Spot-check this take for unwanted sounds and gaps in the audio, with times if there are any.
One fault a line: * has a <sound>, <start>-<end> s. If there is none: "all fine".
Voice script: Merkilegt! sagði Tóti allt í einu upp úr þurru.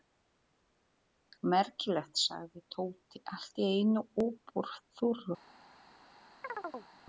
* has a chirp, 6.4-6.9 s